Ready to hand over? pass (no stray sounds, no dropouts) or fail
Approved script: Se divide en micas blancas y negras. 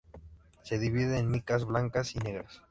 pass